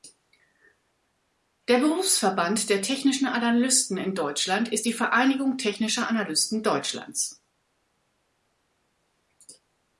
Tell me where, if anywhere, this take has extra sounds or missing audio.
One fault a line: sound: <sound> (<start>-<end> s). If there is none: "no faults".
no faults